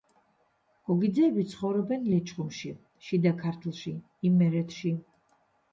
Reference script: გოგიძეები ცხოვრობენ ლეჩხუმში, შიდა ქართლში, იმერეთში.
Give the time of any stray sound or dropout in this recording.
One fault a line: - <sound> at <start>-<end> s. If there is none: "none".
none